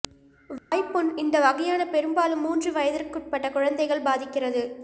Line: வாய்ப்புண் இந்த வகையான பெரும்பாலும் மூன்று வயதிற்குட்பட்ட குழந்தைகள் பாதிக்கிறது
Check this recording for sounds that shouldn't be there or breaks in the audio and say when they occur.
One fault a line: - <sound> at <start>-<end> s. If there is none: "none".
- dropout at 0.6-0.7 s